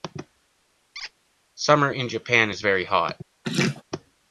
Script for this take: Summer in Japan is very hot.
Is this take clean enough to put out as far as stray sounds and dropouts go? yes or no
no